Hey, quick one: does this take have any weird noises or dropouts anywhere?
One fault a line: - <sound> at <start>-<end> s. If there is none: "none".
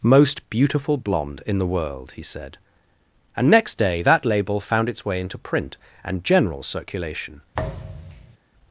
- thud at 7.5-8.4 s